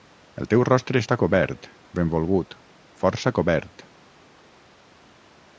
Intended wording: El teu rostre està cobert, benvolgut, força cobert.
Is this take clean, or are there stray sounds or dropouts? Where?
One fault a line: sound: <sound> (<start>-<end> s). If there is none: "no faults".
no faults